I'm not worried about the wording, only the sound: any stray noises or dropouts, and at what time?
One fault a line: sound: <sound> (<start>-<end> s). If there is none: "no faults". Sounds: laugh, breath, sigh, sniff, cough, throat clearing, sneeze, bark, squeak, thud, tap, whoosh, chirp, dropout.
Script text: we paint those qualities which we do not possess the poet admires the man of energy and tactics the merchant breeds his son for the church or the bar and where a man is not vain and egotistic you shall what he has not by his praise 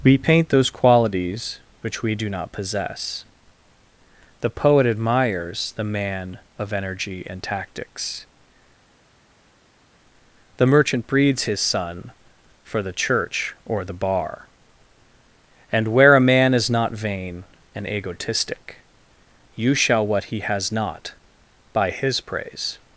no faults